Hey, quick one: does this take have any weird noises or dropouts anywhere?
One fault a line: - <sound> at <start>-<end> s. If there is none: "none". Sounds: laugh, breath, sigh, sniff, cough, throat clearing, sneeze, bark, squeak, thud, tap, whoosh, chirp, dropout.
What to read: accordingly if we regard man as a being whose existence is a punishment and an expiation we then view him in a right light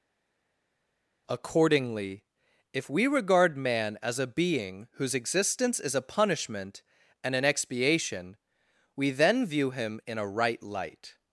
none